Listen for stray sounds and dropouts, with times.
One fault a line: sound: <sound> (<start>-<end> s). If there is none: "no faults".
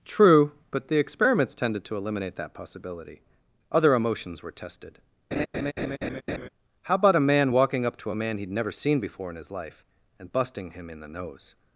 sound: laugh (5.3-6.5 s)